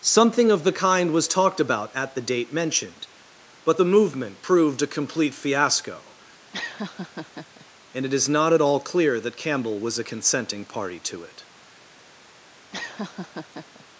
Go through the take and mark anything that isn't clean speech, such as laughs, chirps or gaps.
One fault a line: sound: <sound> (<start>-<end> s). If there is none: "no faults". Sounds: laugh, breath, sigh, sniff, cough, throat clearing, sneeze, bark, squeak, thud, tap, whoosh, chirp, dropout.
sound: laugh (6.5-7.7 s)
sound: laugh (12.7-13.9 s)